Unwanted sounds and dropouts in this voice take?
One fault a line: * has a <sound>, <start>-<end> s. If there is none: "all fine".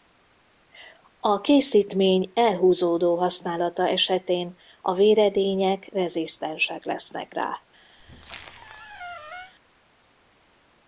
* has a squeak, 8.0-9.5 s